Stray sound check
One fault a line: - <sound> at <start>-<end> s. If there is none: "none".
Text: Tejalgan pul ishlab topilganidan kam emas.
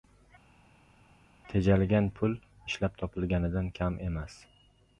none